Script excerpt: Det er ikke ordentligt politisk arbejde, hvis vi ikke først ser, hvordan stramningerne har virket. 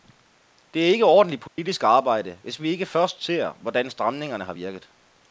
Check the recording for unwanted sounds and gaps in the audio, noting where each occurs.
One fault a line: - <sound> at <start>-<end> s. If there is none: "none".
- dropout at 1.5-1.6 s